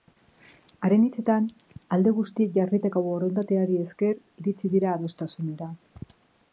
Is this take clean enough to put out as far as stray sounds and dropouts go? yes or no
yes